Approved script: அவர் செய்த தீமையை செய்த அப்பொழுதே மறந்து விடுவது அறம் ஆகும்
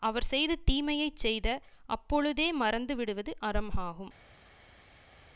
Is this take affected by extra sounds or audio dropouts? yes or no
no